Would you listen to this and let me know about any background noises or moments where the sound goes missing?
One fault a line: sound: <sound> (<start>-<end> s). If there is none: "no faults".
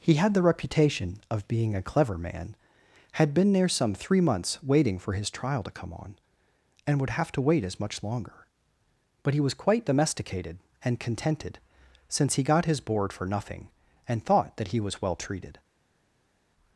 no faults